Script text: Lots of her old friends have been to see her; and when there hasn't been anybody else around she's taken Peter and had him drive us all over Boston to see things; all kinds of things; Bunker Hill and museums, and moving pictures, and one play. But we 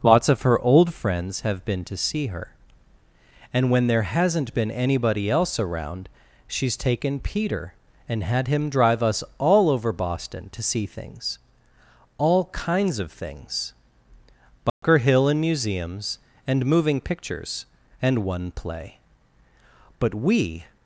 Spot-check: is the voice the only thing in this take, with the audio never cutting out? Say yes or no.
no